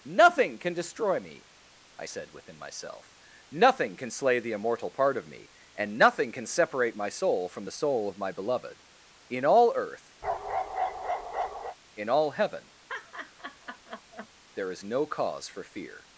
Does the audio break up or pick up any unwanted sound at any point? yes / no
yes